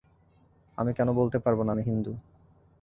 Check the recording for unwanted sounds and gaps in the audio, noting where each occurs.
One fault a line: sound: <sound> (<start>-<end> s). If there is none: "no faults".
no faults